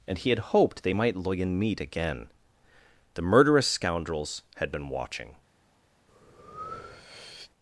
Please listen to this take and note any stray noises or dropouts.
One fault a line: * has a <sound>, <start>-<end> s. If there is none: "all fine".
* has a breath, 6.1-7.5 s